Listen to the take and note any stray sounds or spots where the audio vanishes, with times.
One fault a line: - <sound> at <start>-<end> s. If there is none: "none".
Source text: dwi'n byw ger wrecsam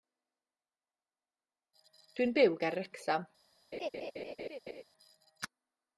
- laugh at 3.7-4.8 s